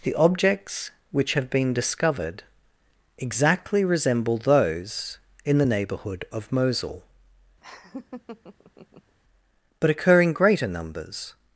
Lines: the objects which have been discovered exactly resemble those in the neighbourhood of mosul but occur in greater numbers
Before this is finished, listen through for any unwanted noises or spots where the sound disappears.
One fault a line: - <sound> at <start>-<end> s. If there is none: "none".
- laugh at 7.6-9.2 s